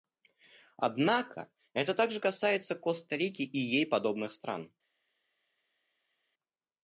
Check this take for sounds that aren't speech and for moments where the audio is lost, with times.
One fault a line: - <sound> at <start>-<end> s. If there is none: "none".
none